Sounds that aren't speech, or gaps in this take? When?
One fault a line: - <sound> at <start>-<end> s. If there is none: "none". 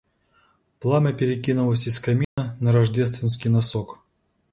- dropout at 2.2-2.4 s